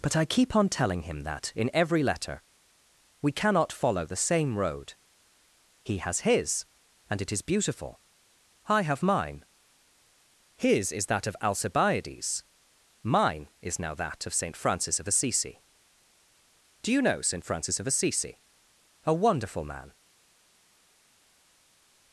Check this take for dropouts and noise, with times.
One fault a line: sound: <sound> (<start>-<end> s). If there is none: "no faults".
no faults